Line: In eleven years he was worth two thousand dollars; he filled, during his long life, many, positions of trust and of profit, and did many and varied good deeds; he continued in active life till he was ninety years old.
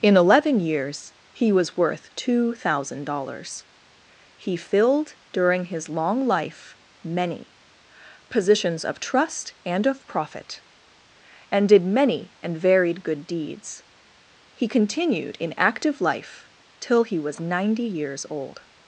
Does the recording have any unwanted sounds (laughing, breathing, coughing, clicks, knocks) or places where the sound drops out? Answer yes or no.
no